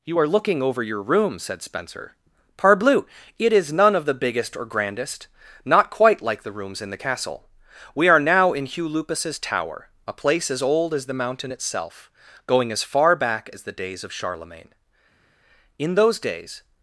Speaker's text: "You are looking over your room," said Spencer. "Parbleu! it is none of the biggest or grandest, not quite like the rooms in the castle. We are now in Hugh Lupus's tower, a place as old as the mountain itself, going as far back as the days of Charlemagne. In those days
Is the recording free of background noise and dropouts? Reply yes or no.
yes